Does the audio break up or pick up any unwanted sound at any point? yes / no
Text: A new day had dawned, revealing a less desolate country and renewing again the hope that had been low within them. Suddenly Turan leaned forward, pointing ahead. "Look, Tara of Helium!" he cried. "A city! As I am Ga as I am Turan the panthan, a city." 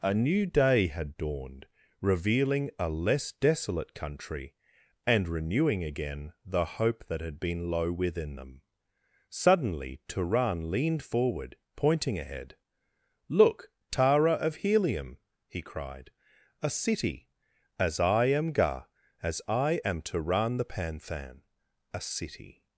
no